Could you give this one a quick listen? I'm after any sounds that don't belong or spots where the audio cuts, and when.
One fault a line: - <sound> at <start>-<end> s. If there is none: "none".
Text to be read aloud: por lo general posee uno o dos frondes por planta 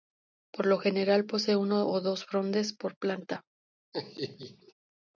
- laugh at 3.9-4.7 s